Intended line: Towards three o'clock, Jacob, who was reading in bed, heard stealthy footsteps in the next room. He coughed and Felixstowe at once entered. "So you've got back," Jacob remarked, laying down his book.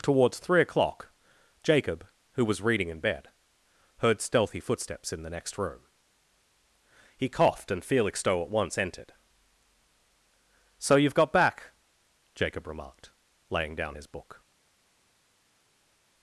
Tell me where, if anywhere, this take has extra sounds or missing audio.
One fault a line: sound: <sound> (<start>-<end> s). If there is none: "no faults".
no faults